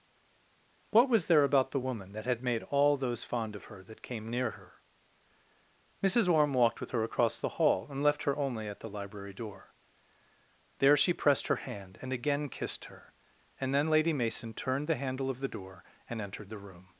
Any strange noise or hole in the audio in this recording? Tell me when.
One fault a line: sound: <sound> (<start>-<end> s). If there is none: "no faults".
no faults